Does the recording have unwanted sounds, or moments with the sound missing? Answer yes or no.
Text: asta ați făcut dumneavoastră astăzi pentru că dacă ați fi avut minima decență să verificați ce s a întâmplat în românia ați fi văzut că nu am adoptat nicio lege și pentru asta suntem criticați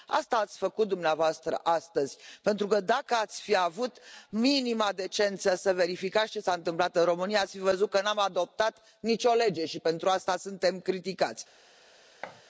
yes